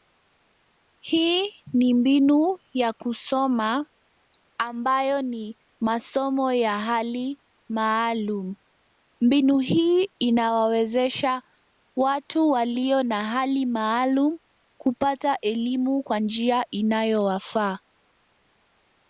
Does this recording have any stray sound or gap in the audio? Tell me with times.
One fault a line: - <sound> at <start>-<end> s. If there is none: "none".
none